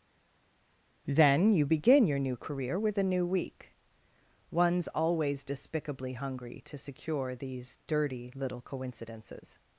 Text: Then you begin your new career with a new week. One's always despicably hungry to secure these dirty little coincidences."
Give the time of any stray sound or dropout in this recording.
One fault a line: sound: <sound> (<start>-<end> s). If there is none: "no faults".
no faults